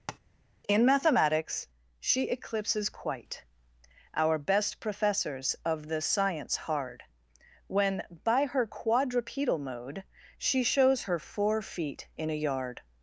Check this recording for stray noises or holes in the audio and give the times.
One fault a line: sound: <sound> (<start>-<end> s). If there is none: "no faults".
sound: tap (0.1-0.2 s)